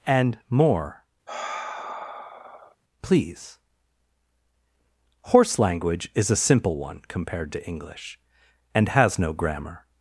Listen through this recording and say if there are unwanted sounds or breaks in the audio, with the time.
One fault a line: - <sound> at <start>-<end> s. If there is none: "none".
- sigh at 1.3-2.8 s